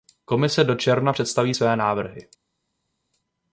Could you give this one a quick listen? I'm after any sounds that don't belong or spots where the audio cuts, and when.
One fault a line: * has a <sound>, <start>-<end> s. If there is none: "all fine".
all fine